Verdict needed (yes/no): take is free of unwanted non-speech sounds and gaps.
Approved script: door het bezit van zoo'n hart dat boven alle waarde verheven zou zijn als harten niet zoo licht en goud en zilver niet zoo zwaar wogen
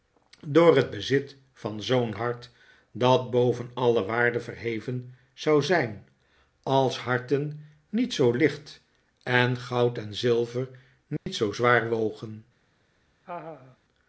no